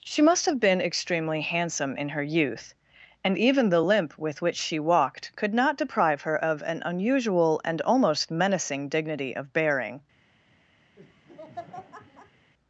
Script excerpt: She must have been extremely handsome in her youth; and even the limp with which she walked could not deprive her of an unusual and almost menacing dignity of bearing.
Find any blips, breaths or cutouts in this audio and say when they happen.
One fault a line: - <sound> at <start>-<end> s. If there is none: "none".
- laugh at 11.0-12.5 s